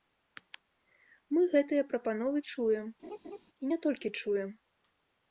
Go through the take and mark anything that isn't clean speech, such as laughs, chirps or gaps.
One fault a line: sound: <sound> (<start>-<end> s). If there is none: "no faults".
sound: laugh (3.0-3.4 s)